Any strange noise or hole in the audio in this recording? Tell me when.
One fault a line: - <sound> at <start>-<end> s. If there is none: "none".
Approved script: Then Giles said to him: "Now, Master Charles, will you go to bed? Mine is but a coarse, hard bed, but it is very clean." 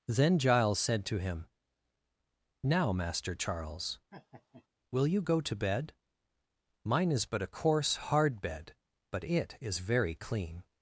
- laugh at 4.1-4.7 s